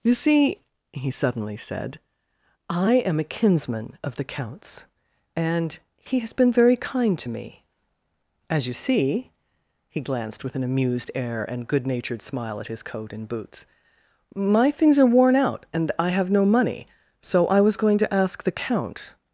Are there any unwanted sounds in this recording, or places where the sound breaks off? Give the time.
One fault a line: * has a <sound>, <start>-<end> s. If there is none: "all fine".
all fine